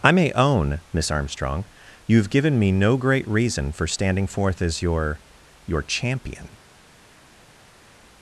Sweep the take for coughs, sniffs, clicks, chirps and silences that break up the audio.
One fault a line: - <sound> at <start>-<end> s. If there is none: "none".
none